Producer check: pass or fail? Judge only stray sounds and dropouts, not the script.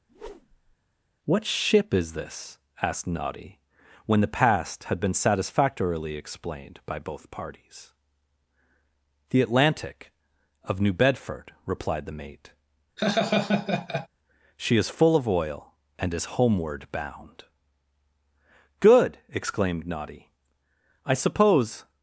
fail